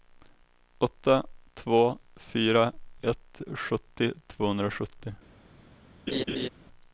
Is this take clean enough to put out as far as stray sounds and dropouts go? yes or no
no